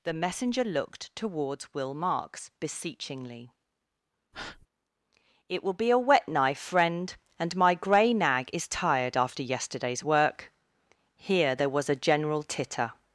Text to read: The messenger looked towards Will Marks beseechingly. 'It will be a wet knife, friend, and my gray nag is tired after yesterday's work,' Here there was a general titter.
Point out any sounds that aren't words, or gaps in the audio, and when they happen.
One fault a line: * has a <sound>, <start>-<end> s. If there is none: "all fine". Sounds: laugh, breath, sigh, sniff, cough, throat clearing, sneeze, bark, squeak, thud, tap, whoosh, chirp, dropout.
* has a breath, 4.3-4.7 s